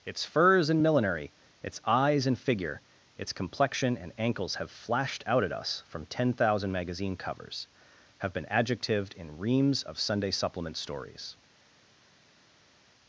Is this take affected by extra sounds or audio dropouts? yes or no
no